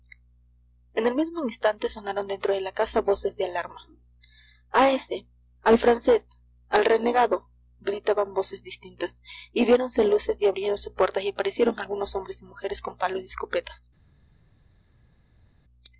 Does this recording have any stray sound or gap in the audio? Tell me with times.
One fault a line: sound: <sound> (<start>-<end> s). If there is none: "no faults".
no faults